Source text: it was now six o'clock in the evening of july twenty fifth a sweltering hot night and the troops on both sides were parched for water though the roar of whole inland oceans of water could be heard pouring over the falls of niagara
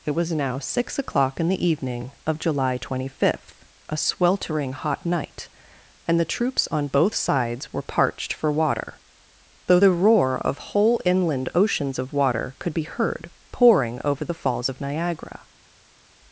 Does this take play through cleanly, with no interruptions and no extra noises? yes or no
yes